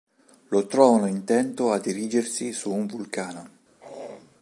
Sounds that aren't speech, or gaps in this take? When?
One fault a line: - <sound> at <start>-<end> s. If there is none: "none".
- throat clearing at 3.8-4.4 s